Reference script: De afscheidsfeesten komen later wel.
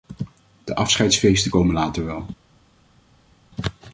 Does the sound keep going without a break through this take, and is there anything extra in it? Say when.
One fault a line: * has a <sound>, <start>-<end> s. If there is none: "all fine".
all fine